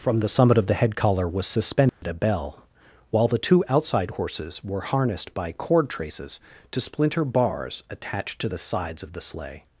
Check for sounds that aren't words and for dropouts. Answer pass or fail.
fail